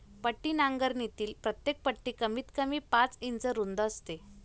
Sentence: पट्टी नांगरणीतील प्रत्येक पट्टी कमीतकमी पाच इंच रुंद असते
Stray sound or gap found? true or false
false